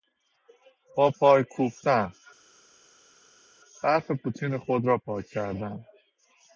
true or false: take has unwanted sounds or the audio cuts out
false